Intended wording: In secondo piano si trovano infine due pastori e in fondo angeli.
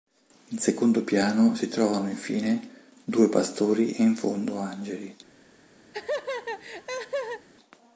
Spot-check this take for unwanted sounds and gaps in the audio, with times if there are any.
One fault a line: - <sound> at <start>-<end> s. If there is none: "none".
- laugh at 5.9-7.5 s